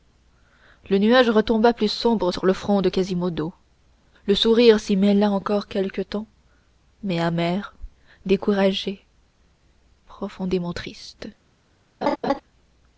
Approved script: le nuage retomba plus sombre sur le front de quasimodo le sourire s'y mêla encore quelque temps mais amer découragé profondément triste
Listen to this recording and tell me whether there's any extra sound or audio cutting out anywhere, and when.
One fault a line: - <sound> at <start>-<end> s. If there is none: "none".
- laugh at 12.0-12.4 s